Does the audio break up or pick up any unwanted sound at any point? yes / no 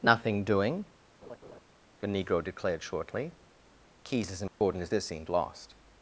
yes